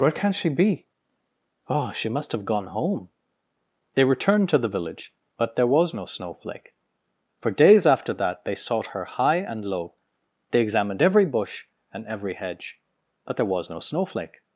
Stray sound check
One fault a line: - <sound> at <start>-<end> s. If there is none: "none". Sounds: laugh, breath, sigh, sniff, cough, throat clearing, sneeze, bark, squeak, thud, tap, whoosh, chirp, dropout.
none